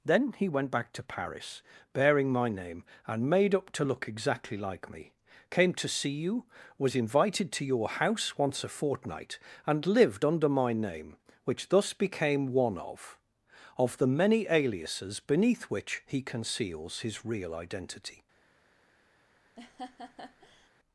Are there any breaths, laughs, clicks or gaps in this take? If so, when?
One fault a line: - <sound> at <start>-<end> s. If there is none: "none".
- laugh at 19.6-20.7 s